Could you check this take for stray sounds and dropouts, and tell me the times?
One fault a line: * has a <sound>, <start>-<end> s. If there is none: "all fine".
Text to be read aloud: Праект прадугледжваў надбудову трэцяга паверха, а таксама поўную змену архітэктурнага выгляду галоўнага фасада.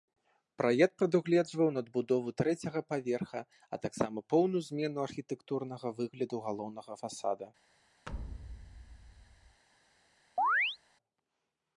* has a thud, 8.1-9.6 s
* has a chirp, 10.4-10.8 s